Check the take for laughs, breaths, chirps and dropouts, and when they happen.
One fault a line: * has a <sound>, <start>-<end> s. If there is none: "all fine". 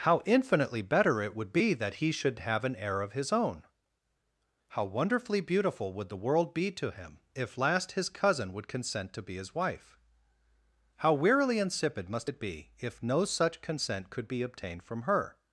all fine